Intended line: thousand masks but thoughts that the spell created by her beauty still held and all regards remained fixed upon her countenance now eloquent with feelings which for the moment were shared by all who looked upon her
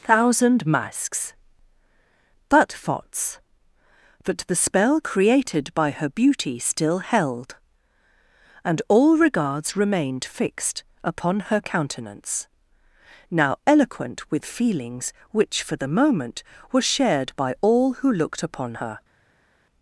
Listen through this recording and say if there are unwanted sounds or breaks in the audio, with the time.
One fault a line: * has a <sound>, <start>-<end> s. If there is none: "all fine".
all fine